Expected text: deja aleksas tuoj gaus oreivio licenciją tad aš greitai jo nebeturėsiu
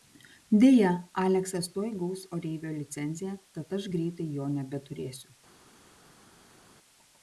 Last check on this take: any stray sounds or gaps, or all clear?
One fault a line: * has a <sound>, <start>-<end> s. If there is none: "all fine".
all fine